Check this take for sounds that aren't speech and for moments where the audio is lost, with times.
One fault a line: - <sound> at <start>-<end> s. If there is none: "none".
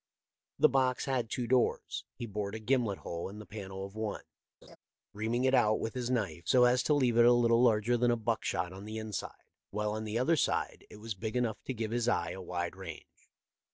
- laugh at 4.6-4.8 s